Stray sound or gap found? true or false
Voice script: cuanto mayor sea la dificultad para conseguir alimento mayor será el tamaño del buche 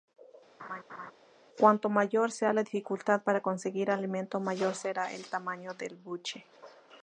true